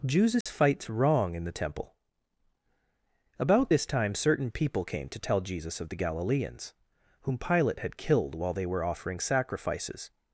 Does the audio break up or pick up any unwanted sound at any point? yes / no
yes